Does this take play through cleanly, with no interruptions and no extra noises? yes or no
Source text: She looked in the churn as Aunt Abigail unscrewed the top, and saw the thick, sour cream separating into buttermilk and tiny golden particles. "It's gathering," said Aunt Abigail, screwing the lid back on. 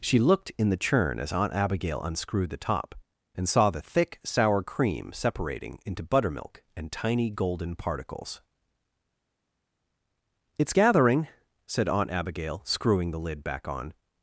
yes